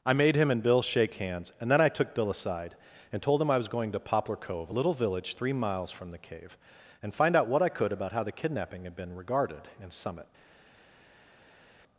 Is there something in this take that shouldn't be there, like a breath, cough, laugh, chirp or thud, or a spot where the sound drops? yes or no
no